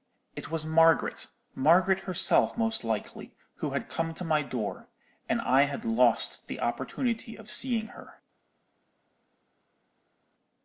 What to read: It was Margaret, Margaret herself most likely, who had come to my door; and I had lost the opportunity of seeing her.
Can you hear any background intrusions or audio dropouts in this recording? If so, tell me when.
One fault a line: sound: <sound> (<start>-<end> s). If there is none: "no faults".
no faults